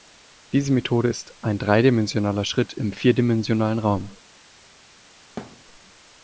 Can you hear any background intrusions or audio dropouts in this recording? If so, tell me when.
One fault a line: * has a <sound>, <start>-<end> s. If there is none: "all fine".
* has a thud, 5.4-5.6 s